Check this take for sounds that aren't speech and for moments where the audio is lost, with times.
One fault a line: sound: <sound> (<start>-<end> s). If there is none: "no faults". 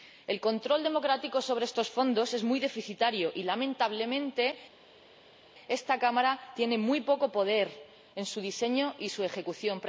no faults